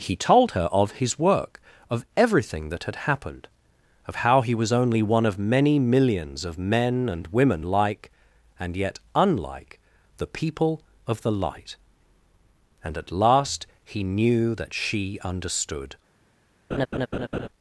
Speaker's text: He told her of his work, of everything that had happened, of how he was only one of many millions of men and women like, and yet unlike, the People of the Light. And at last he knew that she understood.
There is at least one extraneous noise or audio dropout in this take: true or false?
true